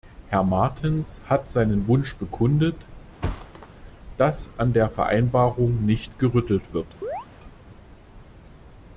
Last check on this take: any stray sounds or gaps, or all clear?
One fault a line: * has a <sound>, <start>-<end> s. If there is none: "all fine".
* has a thud, 3.2-3.7 s
* has a chirp, 7.0-7.3 s